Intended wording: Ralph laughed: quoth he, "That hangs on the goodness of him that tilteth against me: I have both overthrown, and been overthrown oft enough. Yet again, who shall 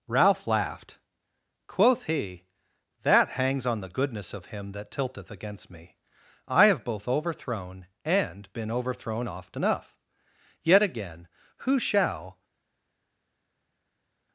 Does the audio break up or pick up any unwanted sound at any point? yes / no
no